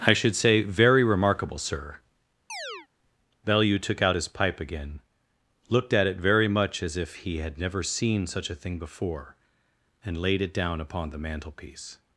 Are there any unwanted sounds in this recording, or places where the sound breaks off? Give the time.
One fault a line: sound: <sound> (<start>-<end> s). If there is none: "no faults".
sound: chirp (2.5-2.9 s)